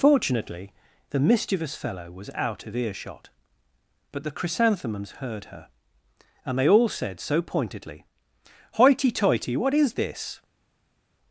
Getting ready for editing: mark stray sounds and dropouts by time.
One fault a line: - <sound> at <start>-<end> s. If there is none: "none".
none